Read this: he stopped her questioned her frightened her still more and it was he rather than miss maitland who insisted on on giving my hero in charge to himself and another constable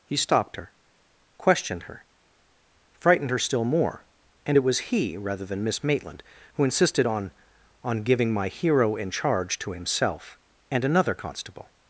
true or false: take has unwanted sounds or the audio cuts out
false